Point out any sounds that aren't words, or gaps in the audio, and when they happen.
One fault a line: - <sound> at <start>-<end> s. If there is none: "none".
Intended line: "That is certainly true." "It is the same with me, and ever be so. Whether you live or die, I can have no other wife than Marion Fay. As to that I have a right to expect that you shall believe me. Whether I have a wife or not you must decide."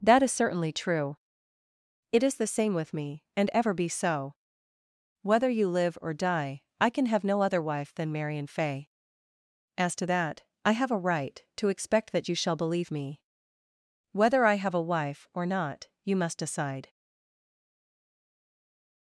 none